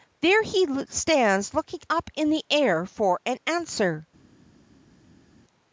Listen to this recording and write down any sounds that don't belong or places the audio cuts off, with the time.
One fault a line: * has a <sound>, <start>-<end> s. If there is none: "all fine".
all fine